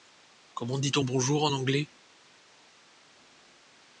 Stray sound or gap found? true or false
false